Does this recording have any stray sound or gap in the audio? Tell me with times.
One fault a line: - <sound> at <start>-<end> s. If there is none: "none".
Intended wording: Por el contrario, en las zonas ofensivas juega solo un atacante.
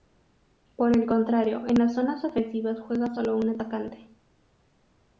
none